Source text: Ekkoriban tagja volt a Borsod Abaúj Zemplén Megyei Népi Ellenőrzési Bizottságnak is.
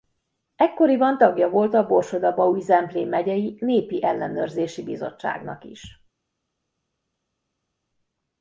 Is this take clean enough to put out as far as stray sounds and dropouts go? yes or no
yes